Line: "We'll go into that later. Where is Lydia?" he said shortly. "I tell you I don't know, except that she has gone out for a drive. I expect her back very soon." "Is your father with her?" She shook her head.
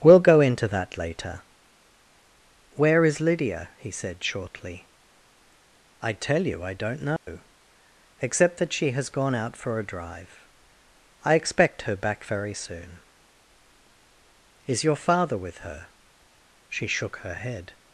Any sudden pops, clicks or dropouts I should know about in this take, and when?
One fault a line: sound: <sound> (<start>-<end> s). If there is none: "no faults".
sound: dropout (7.2-7.3 s)